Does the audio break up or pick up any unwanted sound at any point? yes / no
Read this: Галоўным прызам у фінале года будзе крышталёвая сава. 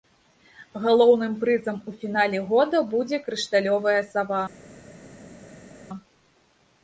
no